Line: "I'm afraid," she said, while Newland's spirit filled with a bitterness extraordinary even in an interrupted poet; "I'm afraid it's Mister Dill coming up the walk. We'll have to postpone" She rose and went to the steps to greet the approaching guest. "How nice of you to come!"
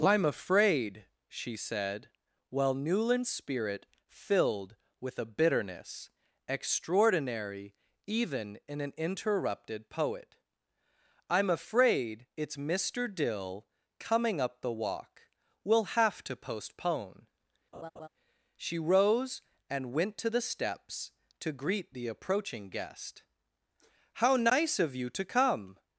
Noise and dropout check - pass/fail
fail